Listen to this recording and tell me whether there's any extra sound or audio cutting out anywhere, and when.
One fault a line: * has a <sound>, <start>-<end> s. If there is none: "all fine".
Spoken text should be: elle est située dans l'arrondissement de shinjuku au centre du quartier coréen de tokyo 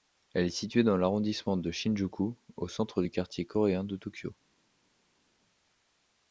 all fine